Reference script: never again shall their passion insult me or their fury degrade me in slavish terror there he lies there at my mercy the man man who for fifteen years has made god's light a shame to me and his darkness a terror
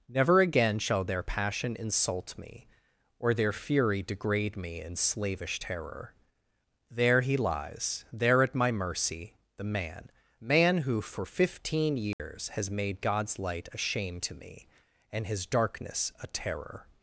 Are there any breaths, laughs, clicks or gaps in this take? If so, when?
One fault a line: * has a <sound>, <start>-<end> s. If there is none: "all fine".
* has a dropout, 12.1-12.2 s